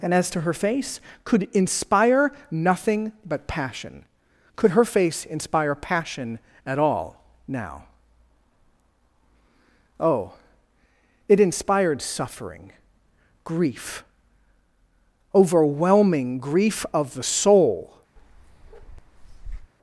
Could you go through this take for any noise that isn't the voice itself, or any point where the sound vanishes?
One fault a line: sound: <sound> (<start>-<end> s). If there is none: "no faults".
sound: bark (18.2-19.7 s)